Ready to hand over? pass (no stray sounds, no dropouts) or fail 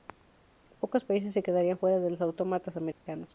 fail